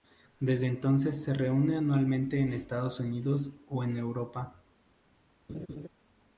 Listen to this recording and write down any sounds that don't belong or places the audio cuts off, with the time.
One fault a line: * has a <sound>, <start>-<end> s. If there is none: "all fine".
* has a laugh, 5.5-5.9 s